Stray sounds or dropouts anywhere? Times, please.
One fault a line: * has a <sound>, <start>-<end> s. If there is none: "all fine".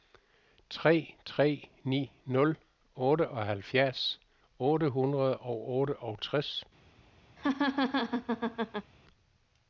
* has a laugh, 7.4-8.9 s